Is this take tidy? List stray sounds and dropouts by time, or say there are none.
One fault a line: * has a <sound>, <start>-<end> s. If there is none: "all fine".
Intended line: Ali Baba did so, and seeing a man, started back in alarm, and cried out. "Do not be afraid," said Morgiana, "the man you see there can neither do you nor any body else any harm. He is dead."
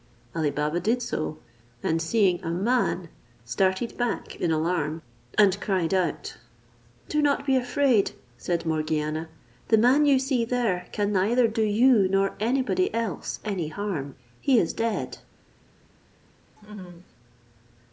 * has a laugh, 16.6-17.1 s